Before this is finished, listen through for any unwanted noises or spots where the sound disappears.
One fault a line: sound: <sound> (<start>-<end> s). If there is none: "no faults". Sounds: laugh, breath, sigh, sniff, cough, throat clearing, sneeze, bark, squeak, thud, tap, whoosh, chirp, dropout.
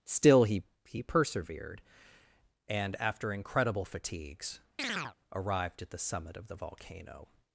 sound: chirp (4.8-5.2 s)